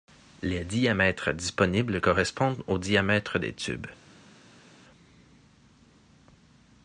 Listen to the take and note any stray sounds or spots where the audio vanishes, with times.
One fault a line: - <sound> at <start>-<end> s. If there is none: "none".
none